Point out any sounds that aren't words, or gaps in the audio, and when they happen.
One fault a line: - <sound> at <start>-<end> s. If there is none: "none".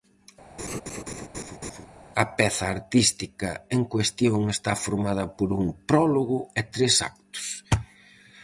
- laugh at 0.6-1.9 s